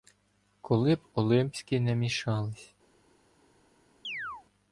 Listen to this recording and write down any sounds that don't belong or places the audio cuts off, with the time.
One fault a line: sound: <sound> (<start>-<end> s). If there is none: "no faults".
sound: chirp (4.0-4.4 s)